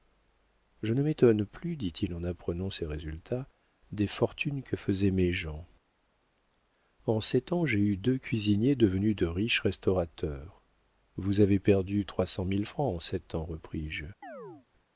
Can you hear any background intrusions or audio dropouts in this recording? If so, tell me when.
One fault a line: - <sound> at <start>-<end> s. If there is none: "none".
- chirp at 14.2-14.7 s